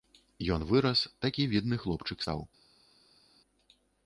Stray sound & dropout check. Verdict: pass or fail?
pass